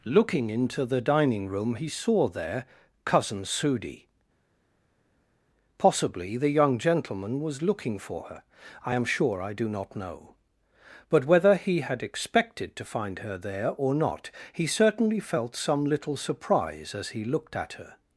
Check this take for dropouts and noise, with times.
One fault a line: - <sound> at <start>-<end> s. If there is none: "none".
none